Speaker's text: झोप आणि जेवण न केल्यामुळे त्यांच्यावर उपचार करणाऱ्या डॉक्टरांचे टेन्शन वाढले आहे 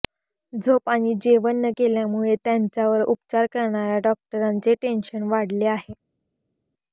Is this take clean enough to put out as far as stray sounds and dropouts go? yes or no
yes